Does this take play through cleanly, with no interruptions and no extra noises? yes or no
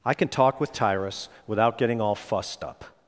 yes